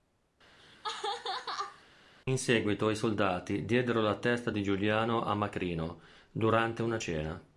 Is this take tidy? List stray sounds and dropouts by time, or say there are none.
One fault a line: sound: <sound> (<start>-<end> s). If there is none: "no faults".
sound: laugh (0.6-1.8 s)